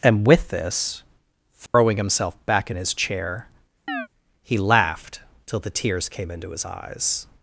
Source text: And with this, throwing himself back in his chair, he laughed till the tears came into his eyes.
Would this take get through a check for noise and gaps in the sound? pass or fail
fail